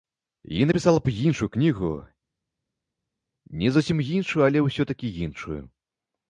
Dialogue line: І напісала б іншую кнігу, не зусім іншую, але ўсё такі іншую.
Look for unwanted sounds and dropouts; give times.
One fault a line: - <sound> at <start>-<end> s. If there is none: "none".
none